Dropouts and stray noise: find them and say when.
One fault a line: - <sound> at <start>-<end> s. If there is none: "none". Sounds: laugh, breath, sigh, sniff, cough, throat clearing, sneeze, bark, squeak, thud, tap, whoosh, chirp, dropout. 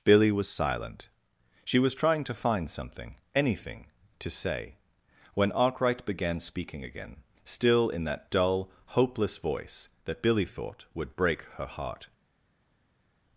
none